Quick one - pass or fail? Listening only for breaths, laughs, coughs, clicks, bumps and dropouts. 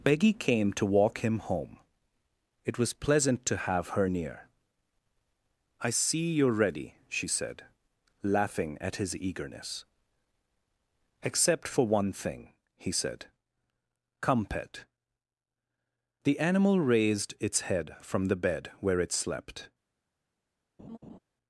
fail